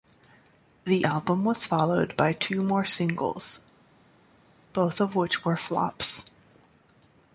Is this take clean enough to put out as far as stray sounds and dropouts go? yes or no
yes